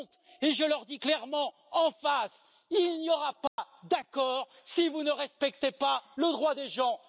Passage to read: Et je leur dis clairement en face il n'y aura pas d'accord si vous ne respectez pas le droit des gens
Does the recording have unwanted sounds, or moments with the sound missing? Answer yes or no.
yes